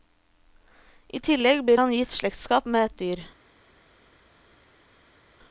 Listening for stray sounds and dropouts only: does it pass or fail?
pass